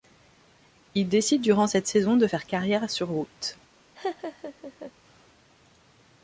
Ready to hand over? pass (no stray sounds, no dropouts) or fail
fail